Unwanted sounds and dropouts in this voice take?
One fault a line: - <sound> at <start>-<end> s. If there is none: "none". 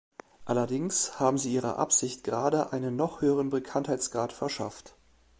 none